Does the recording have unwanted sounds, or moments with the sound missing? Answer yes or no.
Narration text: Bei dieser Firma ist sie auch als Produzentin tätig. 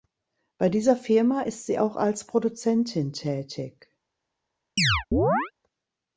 yes